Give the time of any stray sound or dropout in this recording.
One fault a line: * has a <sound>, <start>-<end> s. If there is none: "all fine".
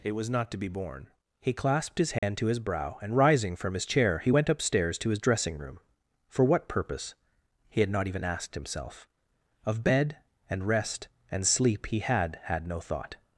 * has a dropout, 2.2-2.2 s